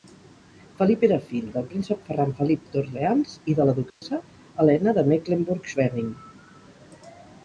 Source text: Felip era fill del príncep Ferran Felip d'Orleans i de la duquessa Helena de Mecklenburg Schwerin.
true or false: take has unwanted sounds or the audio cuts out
true